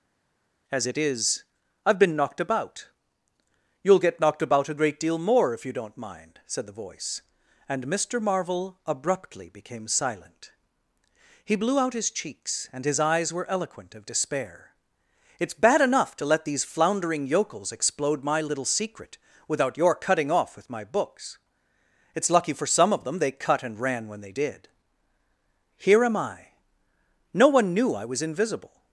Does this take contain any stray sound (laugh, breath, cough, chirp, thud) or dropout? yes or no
no